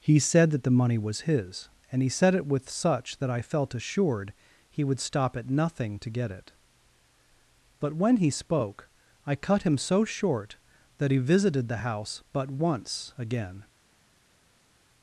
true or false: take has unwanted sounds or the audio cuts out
false